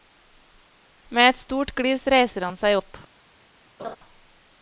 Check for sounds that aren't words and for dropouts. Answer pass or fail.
fail